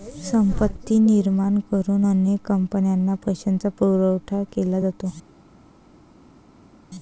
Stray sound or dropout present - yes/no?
no